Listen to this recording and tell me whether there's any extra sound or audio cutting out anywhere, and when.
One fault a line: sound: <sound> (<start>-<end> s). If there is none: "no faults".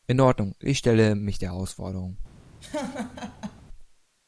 sound: laugh (2.6-3.6 s)